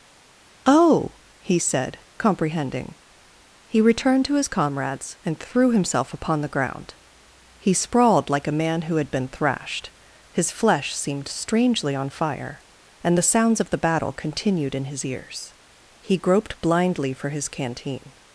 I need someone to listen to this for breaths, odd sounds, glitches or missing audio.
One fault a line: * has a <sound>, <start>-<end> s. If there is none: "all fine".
all fine